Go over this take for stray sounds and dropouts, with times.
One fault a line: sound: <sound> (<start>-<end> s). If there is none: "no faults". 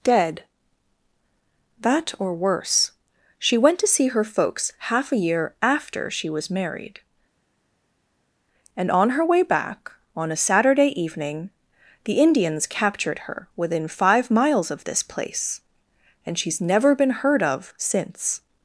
no faults